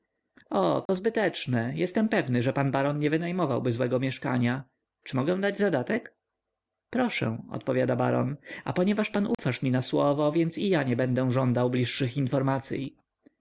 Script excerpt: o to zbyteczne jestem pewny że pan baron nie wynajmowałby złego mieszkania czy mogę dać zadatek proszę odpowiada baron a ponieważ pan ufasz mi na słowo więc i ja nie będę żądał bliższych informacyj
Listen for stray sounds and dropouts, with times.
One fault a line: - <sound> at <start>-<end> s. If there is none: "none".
- dropout at 0.9-0.9 s
- dropout at 9.3-9.4 s